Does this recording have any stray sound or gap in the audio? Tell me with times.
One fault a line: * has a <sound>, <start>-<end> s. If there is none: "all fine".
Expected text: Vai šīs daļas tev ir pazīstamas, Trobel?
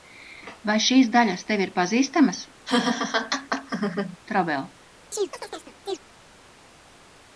* has a laugh, 2.7-4.2 s
* has a chirp, 5.1-6.0 s